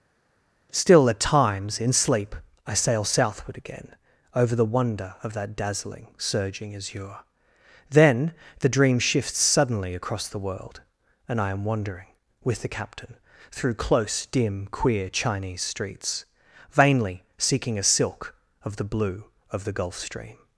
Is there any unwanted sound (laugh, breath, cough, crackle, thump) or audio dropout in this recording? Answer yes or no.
no